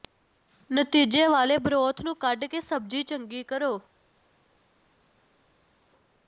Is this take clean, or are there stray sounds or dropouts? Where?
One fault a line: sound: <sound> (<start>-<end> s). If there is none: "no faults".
no faults